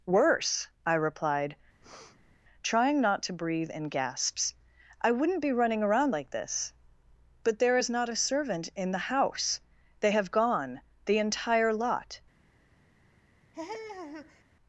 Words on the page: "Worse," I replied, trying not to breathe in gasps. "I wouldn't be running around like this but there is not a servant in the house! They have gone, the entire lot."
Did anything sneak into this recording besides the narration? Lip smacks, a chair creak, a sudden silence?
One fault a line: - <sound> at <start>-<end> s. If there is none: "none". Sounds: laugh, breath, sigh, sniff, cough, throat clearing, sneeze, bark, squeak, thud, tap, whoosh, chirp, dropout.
- breath at 1.8-2.4 s
- laugh at 13.5-14.4 s